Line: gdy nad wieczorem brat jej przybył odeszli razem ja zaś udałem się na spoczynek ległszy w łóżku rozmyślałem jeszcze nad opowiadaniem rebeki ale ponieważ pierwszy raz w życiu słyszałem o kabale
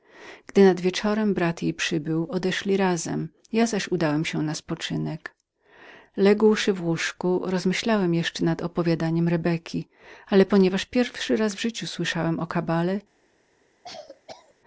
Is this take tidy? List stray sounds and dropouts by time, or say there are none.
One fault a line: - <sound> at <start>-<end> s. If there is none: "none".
- cough at 13.8-14.5 s